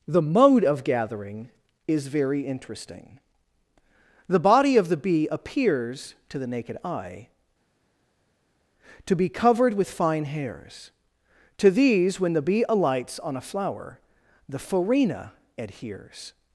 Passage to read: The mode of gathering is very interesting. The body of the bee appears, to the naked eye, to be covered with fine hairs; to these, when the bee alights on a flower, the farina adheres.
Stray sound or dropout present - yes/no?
no